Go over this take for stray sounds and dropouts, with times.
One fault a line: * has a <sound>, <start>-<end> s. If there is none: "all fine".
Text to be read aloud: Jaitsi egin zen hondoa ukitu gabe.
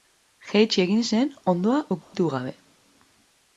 * has a dropout, 2.0-2.1 s